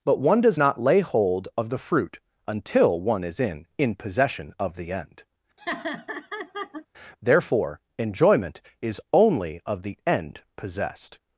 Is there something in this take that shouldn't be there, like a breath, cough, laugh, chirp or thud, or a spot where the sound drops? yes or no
yes